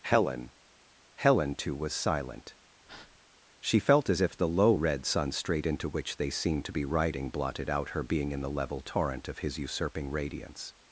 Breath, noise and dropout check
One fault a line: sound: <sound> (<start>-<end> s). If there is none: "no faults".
sound: breath (2.9-3.2 s)